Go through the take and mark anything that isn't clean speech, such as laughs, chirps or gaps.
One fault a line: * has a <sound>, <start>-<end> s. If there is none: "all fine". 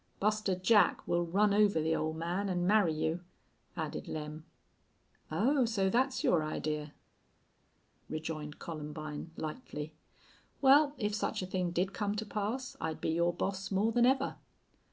all fine